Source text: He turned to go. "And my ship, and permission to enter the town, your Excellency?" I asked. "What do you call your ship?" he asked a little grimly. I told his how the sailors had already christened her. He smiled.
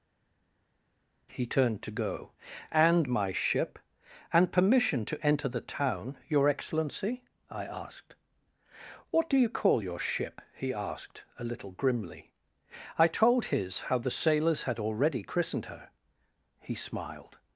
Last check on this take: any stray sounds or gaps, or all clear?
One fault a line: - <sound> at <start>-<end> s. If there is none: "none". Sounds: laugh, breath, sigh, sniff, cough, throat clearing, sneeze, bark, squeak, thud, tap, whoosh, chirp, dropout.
none